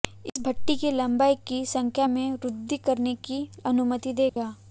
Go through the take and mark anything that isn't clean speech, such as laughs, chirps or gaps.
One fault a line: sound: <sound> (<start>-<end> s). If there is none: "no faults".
sound: dropout (4.3-4.4 s)